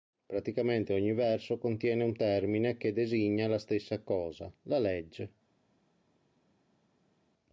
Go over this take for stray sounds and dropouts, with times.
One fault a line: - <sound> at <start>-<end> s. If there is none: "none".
none